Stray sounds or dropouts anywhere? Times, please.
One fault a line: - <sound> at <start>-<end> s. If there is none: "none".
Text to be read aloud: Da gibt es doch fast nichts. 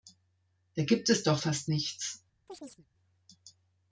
- chirp at 2.5-2.9 s